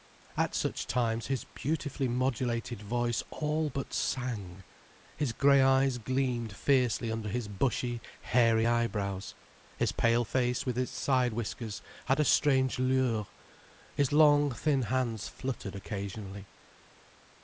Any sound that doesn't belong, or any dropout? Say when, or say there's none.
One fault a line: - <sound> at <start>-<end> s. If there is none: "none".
none